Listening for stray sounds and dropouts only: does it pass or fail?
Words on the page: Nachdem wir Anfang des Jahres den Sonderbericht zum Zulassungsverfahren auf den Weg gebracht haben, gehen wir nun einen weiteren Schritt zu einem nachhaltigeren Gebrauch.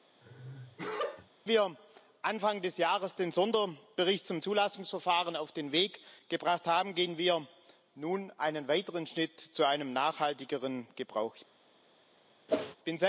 fail